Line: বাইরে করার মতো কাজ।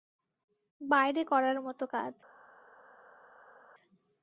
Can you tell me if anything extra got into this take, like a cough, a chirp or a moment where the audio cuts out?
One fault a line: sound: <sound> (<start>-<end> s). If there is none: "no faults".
no faults